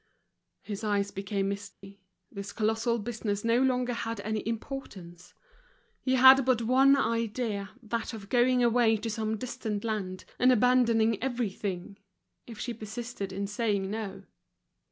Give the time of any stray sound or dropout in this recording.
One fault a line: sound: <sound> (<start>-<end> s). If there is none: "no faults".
sound: dropout (1.7-1.8 s)